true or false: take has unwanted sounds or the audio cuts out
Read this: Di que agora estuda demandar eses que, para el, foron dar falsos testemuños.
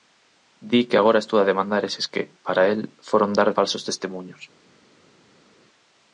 false